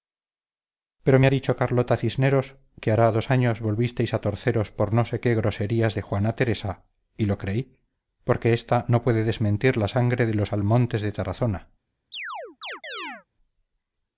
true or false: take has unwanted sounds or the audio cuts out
true